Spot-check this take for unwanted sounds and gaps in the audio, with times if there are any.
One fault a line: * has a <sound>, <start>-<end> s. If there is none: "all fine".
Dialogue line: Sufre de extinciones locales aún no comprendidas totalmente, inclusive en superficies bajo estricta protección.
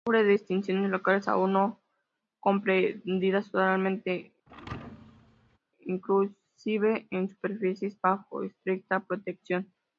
* has a thud, 4.5-5.6 s